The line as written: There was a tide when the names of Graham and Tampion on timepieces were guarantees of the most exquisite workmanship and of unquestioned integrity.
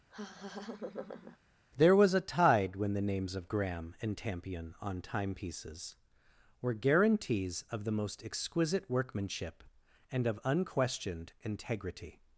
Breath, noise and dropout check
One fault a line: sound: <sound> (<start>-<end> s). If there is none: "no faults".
sound: laugh (0.1-1.4 s)